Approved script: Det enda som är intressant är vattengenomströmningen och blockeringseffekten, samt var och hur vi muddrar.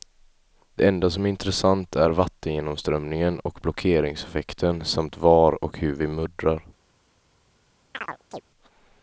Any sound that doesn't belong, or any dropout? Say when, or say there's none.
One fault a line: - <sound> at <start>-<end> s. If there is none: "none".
- chirp at 7.9-8.4 s